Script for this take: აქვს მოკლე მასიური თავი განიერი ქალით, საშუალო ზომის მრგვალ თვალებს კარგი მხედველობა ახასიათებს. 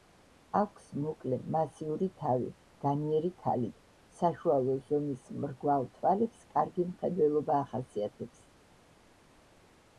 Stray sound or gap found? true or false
false